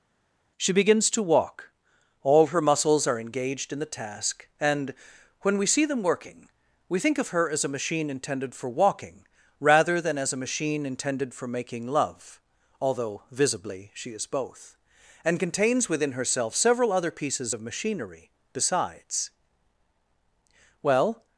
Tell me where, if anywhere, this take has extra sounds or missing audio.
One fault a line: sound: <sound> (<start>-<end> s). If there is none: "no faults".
no faults